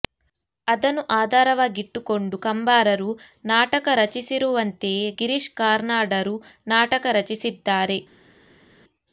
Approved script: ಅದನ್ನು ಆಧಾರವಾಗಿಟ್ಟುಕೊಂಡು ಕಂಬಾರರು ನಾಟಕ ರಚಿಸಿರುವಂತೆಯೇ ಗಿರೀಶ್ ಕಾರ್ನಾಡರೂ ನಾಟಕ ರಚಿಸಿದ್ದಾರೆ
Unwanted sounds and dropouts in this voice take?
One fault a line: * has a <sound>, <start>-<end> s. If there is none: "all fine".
all fine